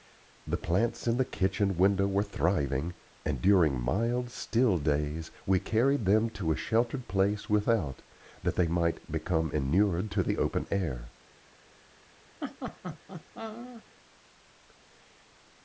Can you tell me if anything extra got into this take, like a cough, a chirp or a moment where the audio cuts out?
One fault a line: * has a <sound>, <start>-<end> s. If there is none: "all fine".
* has a laugh, 12.4-13.8 s